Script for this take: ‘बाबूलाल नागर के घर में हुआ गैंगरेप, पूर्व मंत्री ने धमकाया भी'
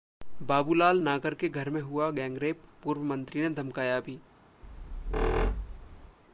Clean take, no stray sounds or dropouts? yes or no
no